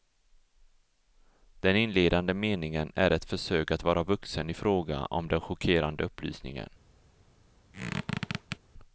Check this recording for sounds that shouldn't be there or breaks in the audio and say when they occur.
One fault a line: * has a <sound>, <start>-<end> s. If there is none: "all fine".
* has a squeak, 7.7-8.6 s